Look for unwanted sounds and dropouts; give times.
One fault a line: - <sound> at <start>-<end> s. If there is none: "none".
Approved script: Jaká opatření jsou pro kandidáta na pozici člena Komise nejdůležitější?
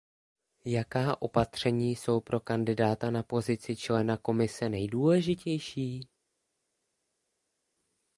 none